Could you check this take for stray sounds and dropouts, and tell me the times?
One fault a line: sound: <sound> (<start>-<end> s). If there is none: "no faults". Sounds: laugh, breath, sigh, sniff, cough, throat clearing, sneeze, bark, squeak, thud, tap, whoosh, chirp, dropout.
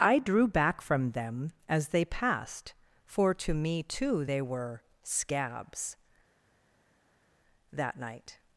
no faults